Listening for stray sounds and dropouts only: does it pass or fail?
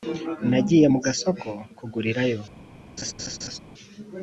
fail